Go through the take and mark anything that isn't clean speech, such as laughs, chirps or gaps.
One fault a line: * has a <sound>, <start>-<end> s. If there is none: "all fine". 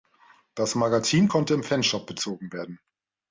all fine